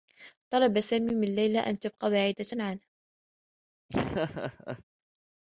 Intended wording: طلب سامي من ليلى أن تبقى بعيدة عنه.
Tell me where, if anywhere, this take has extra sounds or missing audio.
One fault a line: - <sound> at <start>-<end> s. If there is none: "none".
- laugh at 3.9-4.8 s